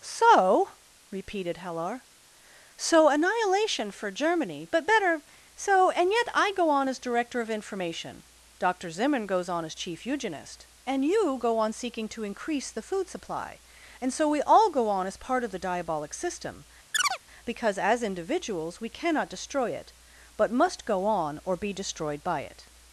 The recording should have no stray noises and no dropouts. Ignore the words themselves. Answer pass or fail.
fail